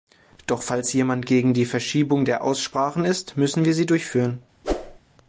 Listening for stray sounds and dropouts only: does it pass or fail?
fail